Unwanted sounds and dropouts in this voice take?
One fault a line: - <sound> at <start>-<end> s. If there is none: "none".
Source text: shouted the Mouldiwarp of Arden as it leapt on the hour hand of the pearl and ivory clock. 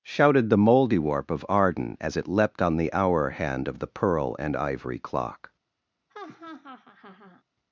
- laugh at 6.1-7.4 s